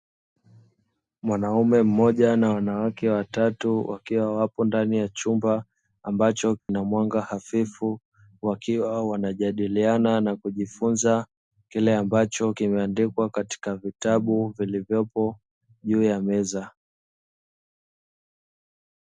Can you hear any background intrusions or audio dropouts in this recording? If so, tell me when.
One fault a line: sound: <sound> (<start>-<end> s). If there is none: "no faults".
sound: dropout (6.6-6.7 s)